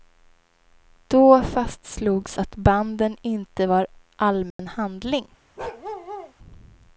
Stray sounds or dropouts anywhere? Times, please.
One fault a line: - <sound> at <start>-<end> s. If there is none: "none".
- dropout at 4.5-4.6 s
- bark at 5.6-6.3 s